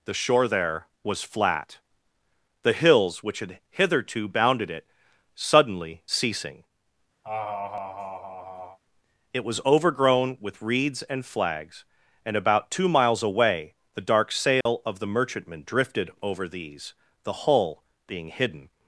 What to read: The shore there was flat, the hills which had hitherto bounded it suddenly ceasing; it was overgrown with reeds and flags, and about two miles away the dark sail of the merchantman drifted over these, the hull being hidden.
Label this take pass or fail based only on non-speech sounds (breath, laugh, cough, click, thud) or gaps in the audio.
fail